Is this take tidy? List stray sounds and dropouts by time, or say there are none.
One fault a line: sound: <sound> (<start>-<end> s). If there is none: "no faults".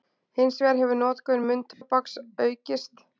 sound: dropout (1.7-1.8 s)